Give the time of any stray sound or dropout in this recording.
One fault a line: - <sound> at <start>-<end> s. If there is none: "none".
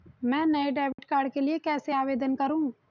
- dropout at 0.9-1.0 s